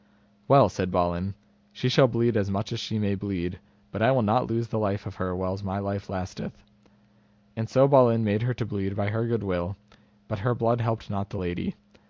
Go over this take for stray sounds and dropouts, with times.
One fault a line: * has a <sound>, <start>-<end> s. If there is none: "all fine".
all fine